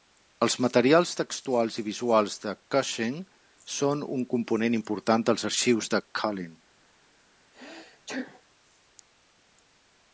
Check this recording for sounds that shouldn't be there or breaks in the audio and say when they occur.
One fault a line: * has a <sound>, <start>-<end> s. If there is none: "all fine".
* has a sneeze, 7.5-8.4 s